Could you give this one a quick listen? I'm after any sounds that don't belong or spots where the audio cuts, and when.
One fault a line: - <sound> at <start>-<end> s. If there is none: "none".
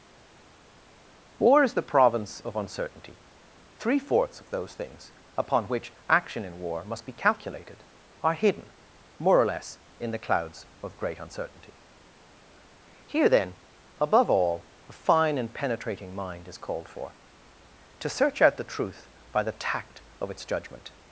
none